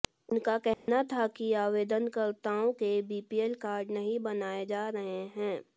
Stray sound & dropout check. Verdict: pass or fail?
fail